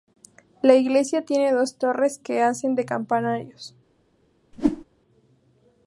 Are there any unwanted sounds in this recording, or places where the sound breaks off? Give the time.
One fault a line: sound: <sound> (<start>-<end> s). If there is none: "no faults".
sound: whoosh (4.5-4.8 s)